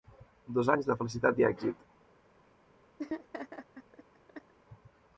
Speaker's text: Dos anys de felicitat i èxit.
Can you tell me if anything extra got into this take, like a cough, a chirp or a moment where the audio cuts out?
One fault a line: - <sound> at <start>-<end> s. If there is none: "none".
- laugh at 3.0-4.5 s